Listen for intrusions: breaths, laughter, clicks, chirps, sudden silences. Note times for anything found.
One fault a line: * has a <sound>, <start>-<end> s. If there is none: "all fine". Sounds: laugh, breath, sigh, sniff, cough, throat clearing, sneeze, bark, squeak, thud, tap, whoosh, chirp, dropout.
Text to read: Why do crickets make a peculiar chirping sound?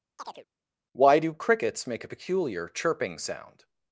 * has a chirp, 0.2-0.5 s